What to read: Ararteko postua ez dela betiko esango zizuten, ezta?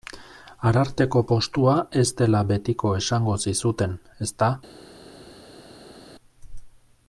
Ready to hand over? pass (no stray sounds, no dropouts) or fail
pass